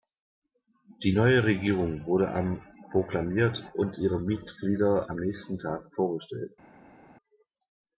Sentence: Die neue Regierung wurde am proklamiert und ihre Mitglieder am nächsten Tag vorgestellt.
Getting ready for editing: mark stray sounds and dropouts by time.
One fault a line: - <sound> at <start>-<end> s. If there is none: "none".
none